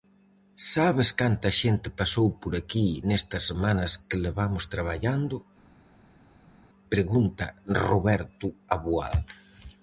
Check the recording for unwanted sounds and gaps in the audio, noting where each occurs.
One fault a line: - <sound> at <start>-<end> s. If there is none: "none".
none